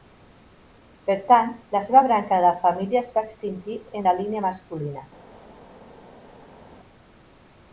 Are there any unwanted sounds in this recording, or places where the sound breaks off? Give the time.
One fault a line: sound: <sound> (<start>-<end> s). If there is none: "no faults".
no faults